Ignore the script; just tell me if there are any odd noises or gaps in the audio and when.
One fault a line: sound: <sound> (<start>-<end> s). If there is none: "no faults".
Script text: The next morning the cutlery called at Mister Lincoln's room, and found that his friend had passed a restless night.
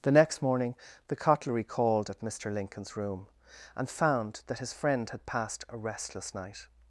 no faults